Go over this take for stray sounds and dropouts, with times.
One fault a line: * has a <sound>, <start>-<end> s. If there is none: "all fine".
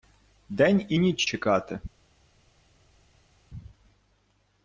all fine